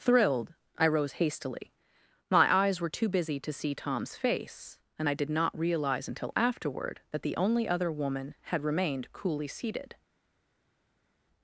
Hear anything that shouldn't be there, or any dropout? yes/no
no